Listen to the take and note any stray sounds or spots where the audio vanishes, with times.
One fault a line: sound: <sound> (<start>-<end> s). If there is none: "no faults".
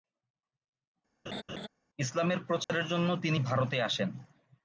sound: laugh (1.3-1.7 s)
sound: dropout (2.6-2.7 s)